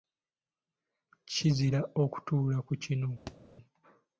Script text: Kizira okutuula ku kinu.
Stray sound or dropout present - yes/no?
yes